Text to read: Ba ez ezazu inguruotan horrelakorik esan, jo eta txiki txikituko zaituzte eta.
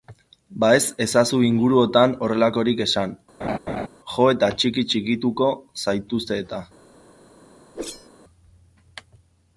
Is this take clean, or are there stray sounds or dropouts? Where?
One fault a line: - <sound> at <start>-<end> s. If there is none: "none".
- laugh at 3.4-3.9 s
- whoosh at 7.7-8.1 s